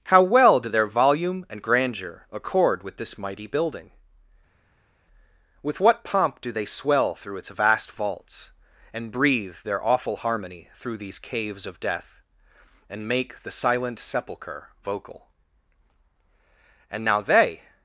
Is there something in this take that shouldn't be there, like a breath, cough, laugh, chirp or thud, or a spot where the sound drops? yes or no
no